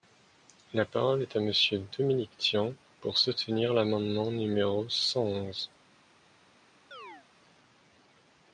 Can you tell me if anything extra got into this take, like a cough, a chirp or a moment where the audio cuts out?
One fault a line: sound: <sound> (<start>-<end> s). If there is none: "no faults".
sound: chirp (6.9-7.3 s)